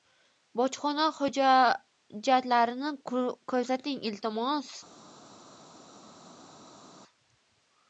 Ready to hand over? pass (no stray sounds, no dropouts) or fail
pass